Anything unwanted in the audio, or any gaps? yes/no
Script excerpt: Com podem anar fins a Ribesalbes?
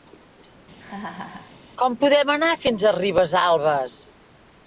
yes